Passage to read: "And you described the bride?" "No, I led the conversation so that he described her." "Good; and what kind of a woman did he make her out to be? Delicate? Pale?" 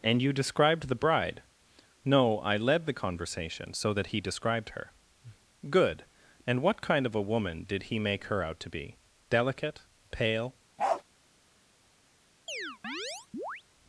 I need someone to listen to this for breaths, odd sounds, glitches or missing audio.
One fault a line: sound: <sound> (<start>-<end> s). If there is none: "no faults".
sound: bark (10.8-11.0 s)
sound: chirp (12.5-13.6 s)